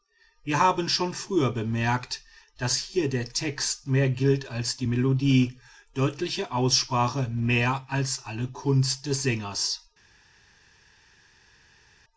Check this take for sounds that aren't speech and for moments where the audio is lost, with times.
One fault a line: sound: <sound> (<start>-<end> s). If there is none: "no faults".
no faults